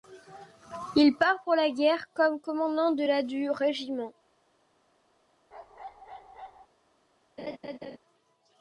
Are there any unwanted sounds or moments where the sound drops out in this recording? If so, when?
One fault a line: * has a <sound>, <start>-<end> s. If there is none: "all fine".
* has a bark, 5.5-6.7 s
* has a laugh, 7.4-8.0 s